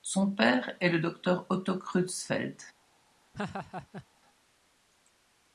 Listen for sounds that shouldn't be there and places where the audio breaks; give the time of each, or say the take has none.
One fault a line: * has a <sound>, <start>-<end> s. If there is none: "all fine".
* has a laugh, 3.3-4.1 s